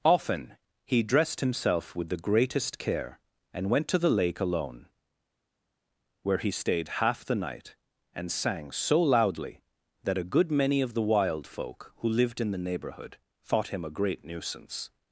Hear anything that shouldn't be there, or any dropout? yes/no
no